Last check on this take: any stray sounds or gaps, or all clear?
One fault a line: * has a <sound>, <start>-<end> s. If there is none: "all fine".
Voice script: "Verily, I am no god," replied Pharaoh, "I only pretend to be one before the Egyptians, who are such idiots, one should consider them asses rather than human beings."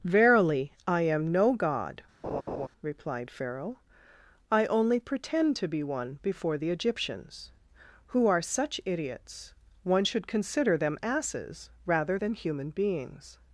* has a laugh, 2.2-2.7 s